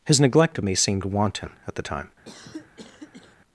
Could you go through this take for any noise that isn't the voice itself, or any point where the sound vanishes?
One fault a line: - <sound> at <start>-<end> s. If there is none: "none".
- cough at 2.2-3.4 s